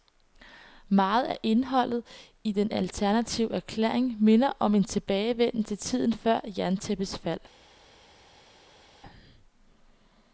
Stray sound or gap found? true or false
false